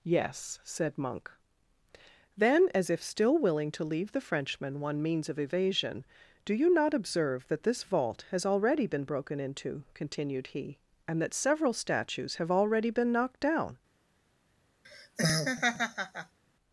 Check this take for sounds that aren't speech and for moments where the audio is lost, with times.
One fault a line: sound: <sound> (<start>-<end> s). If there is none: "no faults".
sound: laugh (14.8-16.4 s)